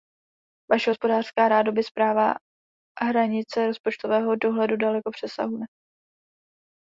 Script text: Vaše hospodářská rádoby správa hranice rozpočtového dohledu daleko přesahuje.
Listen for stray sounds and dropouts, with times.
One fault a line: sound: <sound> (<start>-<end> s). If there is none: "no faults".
no faults